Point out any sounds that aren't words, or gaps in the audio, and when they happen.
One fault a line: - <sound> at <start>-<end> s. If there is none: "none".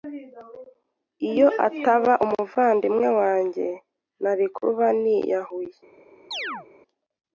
- chirp at 6.3-6.7 s